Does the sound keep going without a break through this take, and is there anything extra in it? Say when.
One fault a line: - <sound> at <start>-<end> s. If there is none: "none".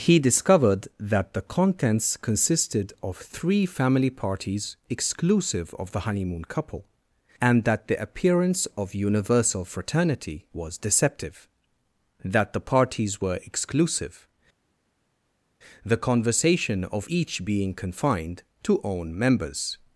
none